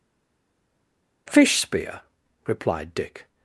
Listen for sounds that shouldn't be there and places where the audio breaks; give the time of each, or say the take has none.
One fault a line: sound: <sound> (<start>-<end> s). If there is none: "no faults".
no faults